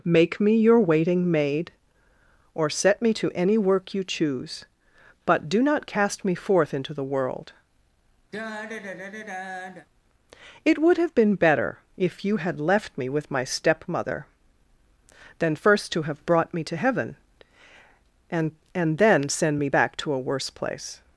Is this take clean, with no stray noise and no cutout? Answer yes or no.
no